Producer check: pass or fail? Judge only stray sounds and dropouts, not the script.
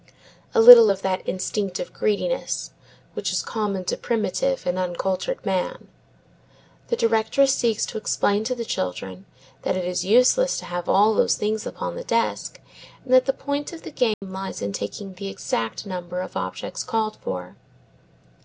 fail